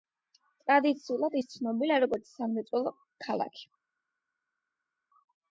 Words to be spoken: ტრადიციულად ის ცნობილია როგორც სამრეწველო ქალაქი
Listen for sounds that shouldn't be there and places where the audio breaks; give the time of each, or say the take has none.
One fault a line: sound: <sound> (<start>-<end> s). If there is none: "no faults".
no faults